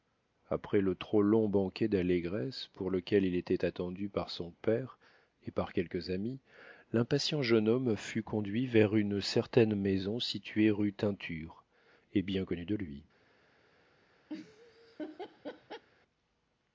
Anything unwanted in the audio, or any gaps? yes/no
yes